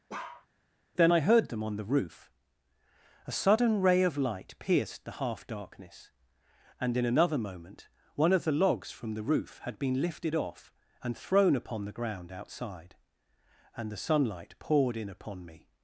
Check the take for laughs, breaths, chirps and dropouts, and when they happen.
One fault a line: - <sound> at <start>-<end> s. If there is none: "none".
- bark at 0.1-0.5 s